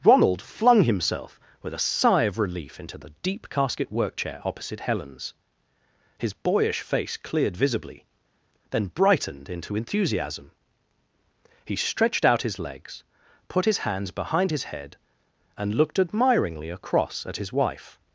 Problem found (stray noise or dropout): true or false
false